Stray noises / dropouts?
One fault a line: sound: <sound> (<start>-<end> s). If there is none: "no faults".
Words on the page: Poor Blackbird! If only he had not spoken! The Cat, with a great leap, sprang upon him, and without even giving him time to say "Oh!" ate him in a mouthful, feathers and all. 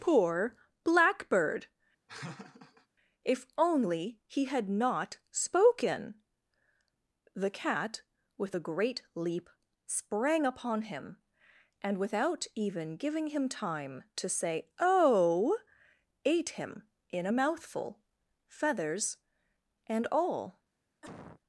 sound: laugh (2.1-2.9 s)
sound: cough (21.0-21.4 s)